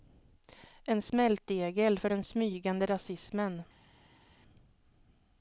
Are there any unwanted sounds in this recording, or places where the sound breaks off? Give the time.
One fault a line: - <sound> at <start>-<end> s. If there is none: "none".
none